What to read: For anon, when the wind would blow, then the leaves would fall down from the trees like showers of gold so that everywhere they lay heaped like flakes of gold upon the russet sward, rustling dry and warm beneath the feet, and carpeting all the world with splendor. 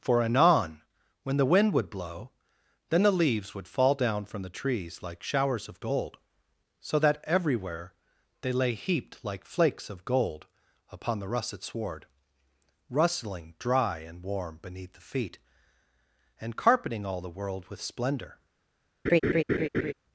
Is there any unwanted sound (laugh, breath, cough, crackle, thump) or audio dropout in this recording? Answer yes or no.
yes